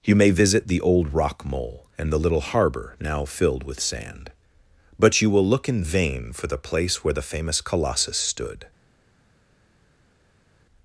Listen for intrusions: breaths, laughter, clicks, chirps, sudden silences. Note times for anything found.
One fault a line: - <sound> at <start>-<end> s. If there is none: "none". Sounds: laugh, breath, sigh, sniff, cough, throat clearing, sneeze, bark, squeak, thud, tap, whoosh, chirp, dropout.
none